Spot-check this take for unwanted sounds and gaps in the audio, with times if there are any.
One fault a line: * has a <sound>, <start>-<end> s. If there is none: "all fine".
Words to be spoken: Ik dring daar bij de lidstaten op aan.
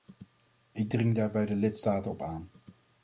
all fine